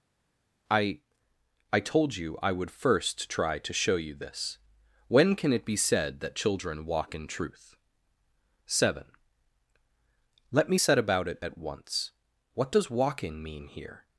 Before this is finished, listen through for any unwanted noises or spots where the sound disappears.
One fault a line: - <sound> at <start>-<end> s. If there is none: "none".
none